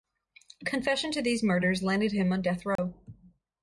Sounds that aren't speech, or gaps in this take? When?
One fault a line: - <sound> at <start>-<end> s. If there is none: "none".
- dropout at 2.8-2.8 s